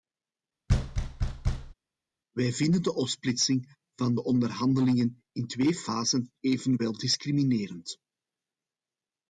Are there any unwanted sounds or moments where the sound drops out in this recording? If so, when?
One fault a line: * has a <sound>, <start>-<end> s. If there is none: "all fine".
* has a thud, 0.7-1.7 s